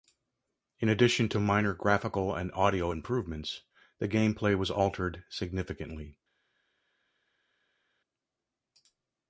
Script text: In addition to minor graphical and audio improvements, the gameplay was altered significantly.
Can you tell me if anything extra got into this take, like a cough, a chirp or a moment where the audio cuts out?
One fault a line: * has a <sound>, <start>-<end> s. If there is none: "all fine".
all fine